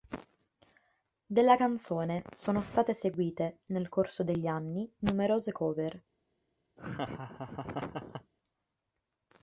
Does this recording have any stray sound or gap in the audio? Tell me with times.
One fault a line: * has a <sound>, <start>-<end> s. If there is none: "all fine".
* has a laugh, 6.8-8.3 s